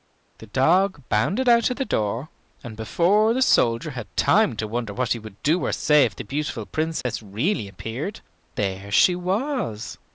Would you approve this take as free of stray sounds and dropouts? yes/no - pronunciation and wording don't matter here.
no